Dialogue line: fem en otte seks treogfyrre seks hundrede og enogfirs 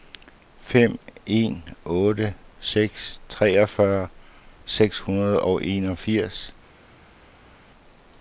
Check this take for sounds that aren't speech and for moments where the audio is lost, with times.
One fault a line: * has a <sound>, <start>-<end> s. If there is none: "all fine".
all fine